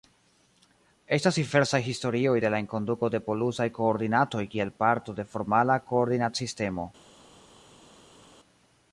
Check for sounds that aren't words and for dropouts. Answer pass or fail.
pass